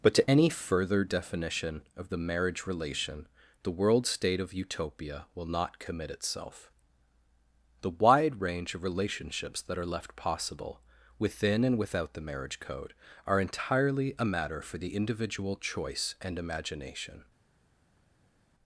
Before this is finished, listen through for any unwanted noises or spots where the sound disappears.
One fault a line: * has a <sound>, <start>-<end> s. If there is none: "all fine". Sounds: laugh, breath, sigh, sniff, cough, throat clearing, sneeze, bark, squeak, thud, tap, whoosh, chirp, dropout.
all fine